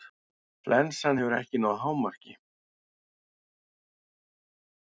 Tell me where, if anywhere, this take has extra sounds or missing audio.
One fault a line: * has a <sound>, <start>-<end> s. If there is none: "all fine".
all fine